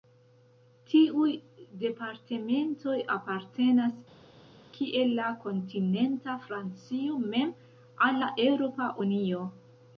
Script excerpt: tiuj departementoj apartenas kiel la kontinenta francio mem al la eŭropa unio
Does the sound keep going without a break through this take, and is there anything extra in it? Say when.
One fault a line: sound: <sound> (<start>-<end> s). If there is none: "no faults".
no faults